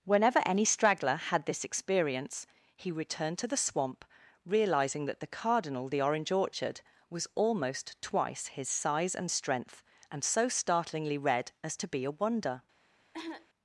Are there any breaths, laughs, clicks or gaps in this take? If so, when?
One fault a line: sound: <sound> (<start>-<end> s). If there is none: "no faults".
sound: cough (13.1-13.5 s)